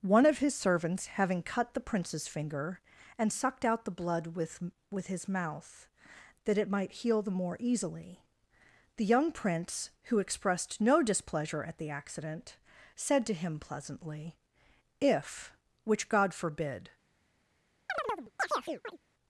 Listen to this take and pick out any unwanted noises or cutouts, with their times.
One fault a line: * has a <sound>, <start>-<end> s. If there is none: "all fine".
* has a chirp, 17.9-19.0 s